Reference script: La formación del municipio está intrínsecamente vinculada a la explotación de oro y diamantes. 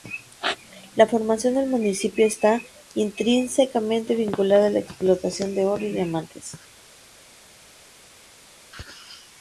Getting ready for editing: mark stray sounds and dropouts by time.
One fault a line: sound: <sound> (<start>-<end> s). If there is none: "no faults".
no faults